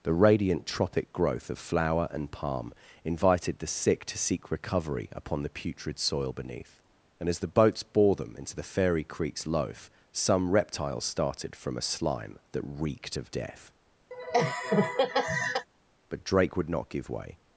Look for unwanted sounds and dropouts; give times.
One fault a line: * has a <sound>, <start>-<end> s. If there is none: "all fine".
* has a laugh, 14.1-15.7 s